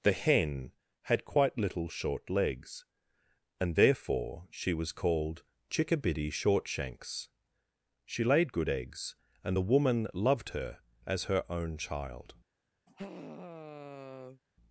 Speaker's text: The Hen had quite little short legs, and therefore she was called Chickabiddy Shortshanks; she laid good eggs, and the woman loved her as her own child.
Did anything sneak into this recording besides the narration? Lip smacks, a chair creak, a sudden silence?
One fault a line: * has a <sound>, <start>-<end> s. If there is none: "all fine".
* has a sigh, 12.9-14.4 s